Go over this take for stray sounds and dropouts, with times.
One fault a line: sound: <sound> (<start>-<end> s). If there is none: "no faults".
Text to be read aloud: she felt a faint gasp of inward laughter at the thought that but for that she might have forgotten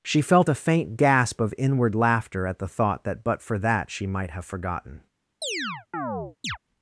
sound: chirp (5.4-6.6 s)